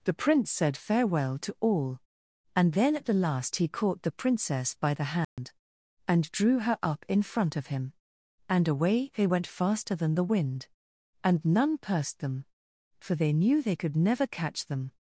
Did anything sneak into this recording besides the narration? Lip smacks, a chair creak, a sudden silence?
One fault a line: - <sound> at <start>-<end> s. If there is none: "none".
- dropout at 5.2-5.4 s